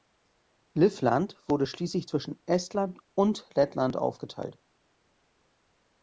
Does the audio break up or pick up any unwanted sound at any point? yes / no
no